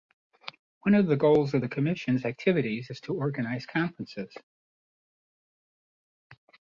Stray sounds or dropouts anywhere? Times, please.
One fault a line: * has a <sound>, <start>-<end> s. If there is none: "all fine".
all fine